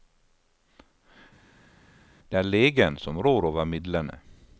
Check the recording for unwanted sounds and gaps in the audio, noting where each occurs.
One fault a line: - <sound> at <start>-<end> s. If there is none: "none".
none